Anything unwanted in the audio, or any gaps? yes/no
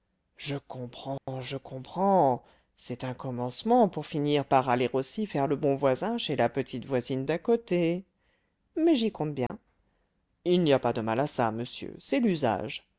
yes